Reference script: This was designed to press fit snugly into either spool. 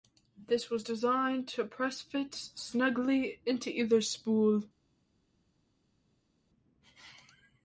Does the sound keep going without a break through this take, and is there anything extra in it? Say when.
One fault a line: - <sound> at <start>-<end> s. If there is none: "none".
none